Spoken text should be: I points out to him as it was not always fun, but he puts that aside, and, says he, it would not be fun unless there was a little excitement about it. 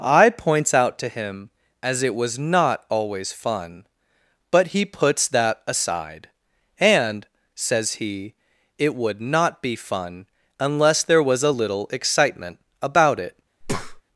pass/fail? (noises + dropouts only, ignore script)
fail